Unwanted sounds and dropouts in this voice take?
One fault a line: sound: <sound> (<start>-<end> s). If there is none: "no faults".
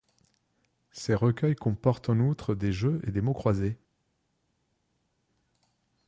no faults